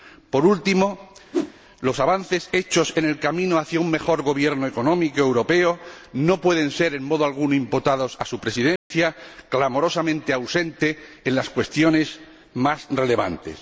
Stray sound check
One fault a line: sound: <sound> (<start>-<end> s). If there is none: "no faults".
sound: whoosh (1.3-1.5 s)
sound: dropout (8.8-8.9 s)